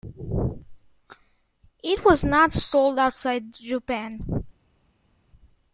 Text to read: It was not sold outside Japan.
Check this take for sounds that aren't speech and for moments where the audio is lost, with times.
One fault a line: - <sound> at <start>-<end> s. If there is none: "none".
none